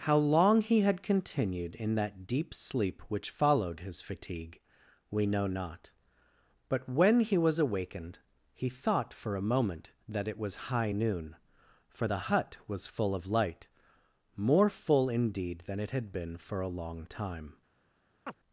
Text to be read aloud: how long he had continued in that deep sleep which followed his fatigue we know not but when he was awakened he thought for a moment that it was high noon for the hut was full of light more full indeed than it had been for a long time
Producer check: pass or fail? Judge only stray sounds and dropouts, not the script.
fail